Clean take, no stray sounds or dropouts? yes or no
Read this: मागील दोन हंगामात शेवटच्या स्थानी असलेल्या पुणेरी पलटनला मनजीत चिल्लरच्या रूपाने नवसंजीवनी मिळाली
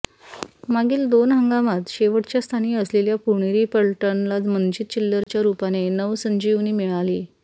no